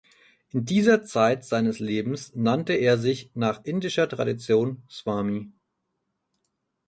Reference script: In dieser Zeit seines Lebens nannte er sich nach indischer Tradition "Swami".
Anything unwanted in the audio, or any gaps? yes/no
no